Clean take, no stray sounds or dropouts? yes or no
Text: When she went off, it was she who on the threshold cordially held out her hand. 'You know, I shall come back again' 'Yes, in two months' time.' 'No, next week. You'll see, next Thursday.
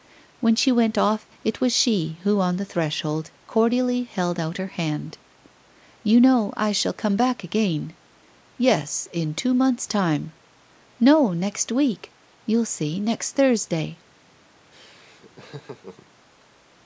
no